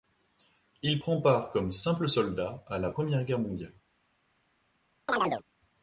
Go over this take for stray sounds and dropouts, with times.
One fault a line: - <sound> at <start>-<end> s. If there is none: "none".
- chirp at 5.1-5.4 s